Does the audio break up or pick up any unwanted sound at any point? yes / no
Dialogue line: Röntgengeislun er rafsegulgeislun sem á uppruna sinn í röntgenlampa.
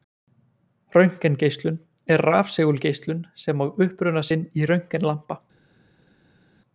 no